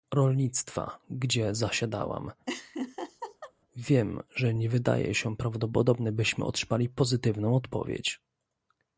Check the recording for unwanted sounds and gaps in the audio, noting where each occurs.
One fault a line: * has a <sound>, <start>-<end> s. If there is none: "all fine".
* has a laugh, 2.5-3.5 s